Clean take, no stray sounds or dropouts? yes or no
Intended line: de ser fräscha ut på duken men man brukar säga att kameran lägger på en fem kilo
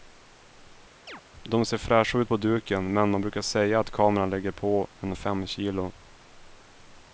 no